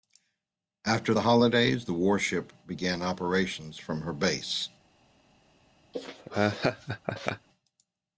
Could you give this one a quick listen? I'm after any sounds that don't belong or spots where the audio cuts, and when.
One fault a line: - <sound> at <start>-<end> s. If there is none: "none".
- laugh at 5.9-7.5 s